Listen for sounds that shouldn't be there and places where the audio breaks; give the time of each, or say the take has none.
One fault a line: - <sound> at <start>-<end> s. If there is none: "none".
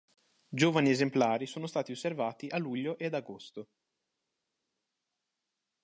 none